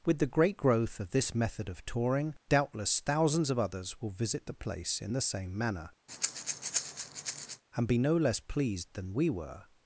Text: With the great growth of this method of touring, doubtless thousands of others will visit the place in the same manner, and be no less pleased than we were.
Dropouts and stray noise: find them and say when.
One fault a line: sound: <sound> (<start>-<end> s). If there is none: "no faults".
sound: breath (6.1-7.6 s)